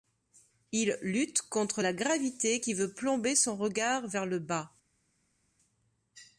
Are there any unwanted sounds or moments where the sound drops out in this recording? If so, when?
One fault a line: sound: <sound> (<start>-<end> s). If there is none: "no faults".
no faults